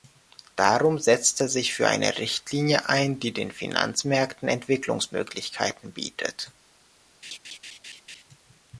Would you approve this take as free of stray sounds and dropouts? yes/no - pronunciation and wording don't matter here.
no